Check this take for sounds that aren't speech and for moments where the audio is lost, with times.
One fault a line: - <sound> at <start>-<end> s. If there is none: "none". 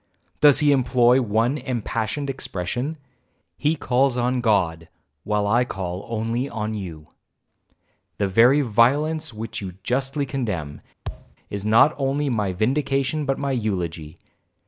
- thud at 11.1-11.4 s